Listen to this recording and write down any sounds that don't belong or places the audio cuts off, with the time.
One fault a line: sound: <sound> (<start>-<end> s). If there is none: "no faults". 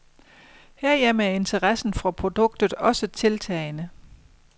no faults